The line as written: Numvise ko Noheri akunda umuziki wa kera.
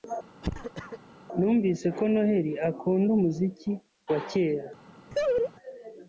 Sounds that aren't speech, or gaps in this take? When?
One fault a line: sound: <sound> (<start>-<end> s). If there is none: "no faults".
sound: cough (0.4-1.0 s)
sound: laugh (5.1-5.5 s)